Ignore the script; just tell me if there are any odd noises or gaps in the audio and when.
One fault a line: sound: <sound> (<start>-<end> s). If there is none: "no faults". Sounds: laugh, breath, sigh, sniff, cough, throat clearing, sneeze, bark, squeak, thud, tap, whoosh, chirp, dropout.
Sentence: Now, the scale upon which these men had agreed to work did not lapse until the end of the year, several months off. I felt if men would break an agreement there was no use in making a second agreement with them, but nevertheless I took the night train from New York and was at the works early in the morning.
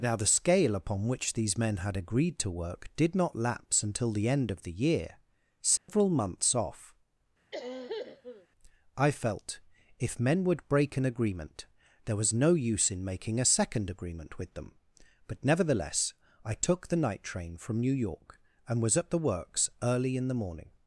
sound: dropout (5.8-5.9 s)
sound: cough (7.5-8.5 s)